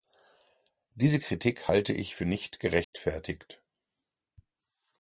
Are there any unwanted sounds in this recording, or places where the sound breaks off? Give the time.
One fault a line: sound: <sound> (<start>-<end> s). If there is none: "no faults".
sound: dropout (2.8-2.9 s)